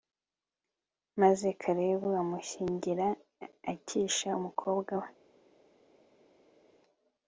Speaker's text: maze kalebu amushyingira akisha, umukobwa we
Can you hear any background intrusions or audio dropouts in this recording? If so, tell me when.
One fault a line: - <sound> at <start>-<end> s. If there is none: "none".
none